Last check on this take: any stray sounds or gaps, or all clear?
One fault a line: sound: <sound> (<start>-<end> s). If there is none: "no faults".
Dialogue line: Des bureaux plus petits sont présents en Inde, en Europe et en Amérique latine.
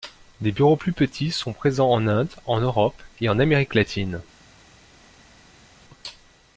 no faults